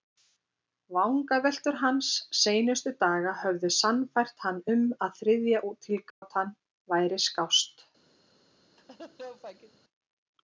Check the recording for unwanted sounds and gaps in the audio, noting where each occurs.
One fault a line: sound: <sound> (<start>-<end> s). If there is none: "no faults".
sound: dropout (6.1-6.2 s)
sound: laugh (8.8-9.8 s)